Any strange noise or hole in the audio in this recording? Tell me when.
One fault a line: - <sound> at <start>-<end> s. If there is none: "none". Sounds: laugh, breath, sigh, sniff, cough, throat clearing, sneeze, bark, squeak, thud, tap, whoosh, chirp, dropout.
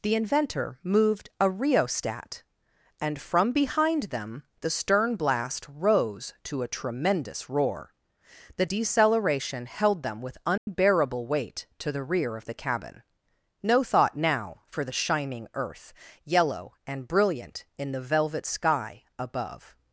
- dropout at 10.6-10.7 s